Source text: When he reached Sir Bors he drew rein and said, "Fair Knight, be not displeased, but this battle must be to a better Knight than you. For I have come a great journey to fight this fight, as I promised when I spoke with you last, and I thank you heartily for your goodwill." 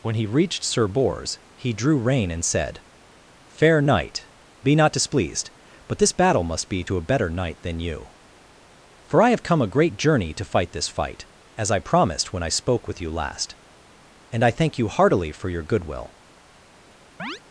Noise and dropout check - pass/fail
fail